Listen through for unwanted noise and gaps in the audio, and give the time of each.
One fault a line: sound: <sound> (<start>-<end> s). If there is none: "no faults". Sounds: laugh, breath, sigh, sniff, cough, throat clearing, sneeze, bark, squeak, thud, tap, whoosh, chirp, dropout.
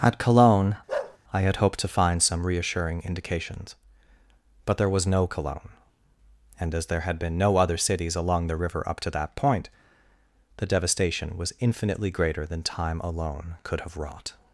sound: bark (0.9-1.2 s)